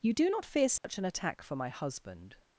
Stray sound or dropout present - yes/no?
yes